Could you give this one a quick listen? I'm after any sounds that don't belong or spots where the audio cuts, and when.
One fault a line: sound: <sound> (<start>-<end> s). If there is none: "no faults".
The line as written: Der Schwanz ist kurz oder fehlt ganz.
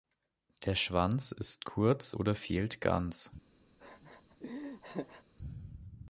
sound: laugh (3.8-5.2 s)